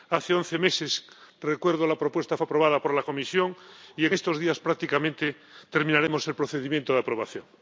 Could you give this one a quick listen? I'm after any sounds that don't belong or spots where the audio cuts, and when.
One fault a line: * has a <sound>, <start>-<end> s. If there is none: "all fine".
all fine